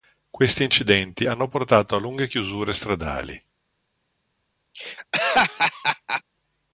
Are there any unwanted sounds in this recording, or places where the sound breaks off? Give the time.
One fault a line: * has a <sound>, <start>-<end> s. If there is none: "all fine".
* has a laugh, 4.7-6.2 s